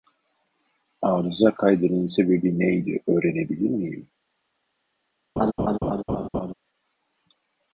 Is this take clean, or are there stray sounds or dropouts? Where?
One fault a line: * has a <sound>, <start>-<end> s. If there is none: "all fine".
* has a laugh, 5.4-6.5 s